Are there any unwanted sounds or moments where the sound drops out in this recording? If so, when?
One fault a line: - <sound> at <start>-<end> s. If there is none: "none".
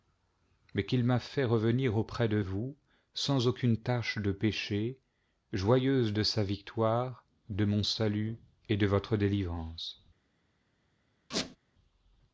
- squeak at 11.3-11.6 s